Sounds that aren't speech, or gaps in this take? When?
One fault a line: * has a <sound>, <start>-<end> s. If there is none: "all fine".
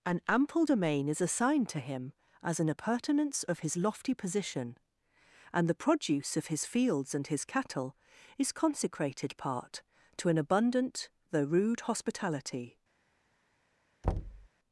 * has a thud, 14.0-14.5 s